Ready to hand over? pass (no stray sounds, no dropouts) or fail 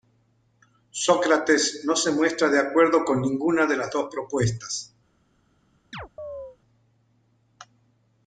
fail